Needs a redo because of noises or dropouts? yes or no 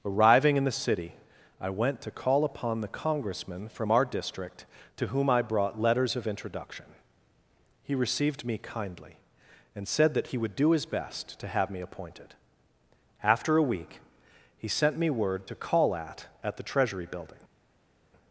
no